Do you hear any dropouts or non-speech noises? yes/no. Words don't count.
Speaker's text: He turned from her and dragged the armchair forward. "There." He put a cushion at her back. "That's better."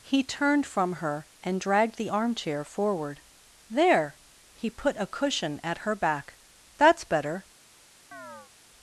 yes